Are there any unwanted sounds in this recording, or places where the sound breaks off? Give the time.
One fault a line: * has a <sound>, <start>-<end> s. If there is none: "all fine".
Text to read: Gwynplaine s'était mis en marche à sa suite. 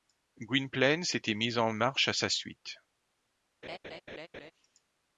* has a laugh, 3.6-4.5 s